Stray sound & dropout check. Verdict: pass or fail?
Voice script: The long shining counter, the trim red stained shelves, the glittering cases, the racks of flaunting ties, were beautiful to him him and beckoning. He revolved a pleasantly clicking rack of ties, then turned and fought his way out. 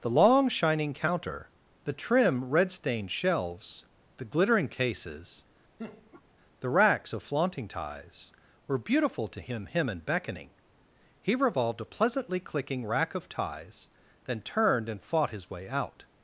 fail